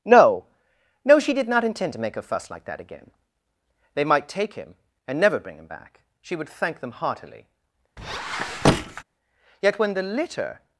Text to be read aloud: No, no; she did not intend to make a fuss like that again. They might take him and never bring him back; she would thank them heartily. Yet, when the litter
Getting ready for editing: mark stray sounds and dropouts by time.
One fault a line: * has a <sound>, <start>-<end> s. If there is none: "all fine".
* has a squeak, 8.0-9.0 s